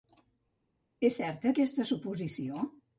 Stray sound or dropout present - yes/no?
no